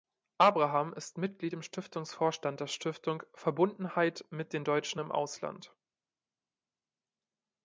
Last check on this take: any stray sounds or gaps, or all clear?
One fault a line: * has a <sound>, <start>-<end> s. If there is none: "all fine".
all fine